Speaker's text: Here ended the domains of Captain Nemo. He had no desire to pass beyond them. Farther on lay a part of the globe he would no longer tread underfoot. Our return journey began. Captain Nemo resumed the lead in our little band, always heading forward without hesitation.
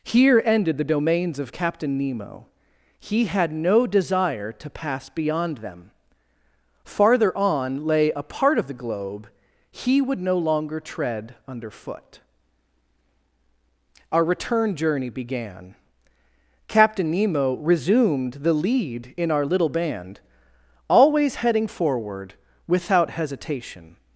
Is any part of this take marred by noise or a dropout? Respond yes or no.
no